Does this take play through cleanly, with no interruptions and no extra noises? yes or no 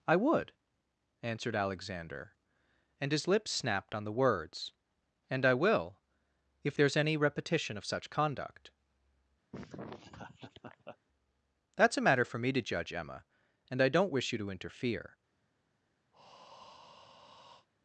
no